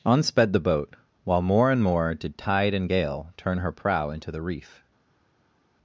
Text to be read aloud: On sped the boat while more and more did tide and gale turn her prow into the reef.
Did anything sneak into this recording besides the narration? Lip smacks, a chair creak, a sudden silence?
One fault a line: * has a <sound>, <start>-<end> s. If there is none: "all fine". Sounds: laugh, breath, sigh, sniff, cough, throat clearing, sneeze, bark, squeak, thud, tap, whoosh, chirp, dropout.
all fine